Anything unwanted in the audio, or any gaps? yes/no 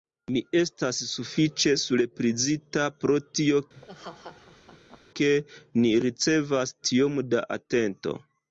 yes